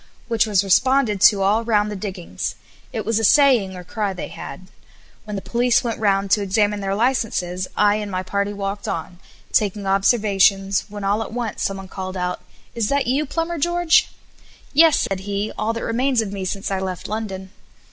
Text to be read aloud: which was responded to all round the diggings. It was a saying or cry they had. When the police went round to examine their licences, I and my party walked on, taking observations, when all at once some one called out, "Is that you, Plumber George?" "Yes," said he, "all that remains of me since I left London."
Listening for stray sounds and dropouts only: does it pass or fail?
fail